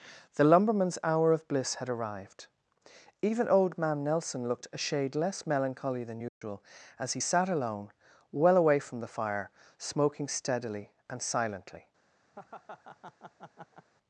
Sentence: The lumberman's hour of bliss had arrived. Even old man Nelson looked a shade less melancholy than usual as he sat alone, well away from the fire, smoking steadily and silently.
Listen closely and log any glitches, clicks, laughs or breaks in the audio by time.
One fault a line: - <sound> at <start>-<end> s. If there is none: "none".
- dropout at 6.3-6.4 s
- laugh at 12.3-13.9 s